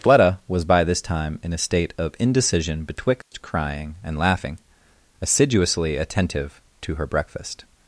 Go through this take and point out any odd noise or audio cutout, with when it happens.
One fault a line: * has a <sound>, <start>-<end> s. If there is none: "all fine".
* has a dropout, 3.2-3.3 s